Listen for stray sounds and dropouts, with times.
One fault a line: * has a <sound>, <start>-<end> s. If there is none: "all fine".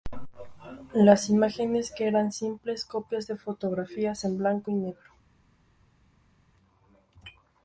all fine